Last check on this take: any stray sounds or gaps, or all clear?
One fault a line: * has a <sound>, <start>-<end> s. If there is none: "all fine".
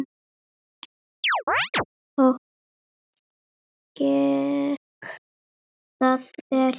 * has a chirp, 1.2-1.8 s